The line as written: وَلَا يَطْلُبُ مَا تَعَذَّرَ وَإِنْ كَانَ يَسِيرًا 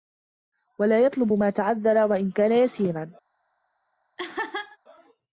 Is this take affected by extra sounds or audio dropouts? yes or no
yes